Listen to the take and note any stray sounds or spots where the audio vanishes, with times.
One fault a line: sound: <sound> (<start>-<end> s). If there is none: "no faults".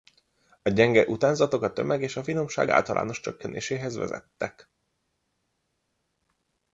no faults